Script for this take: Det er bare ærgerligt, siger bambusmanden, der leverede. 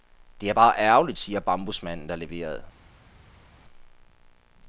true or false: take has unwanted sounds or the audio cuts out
false